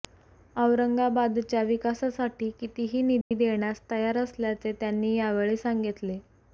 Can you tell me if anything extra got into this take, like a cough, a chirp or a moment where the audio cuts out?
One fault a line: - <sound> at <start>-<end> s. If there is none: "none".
- dropout at 3.2-3.3 s